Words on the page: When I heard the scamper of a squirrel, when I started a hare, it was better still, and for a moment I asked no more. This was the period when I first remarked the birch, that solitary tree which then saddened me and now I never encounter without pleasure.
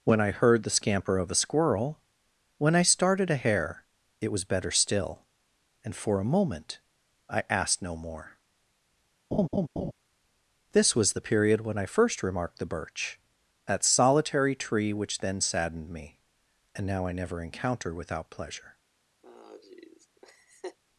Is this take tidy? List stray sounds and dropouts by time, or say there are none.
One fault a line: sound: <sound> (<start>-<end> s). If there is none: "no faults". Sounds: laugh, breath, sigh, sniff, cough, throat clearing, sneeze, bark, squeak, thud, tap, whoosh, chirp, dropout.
sound: laugh (9.3-9.9 s)
sound: laugh (19.2-20.8 s)